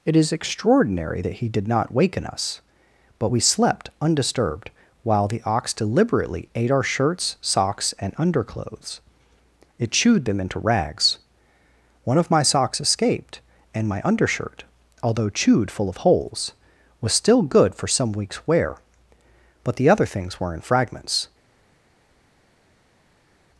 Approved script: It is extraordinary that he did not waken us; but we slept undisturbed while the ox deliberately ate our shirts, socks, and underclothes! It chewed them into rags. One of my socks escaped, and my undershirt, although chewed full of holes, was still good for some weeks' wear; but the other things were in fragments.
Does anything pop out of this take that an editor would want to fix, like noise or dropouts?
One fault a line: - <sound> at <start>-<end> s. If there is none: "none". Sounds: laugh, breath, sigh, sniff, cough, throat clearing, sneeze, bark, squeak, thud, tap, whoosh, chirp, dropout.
none